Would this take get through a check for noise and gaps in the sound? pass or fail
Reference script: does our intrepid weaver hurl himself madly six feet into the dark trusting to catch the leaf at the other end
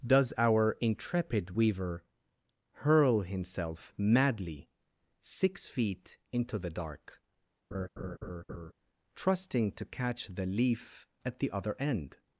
fail